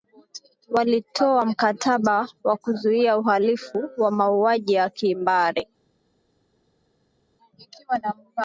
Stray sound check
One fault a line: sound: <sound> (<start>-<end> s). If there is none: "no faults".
no faults